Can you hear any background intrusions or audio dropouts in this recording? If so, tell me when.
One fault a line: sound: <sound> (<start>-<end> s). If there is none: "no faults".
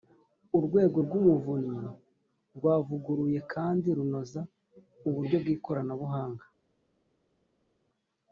no faults